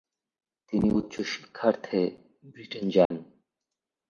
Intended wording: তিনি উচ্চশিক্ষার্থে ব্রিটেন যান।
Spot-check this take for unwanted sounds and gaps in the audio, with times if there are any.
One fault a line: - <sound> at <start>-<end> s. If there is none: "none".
- dropout at 3.0-3.1 s